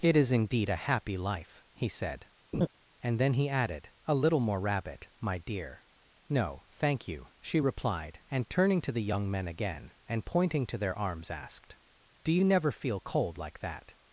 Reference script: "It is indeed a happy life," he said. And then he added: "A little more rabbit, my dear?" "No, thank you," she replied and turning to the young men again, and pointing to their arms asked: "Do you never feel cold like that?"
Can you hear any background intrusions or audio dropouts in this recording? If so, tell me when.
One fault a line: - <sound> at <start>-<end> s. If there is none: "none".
- laugh at 2.5-2.7 s